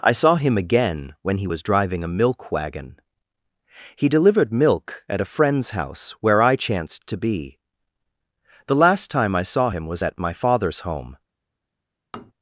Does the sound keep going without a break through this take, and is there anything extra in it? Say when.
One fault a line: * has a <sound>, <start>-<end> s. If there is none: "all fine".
* has a tap, 12.1-12.3 s